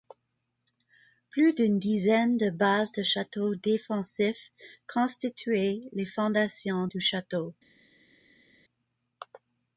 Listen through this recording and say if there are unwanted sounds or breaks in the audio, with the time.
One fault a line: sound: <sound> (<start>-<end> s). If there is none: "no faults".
no faults